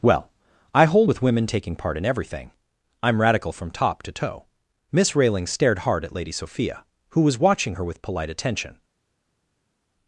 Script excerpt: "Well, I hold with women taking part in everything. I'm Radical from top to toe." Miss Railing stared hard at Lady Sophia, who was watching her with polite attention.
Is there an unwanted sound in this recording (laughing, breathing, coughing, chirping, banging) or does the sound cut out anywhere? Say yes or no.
no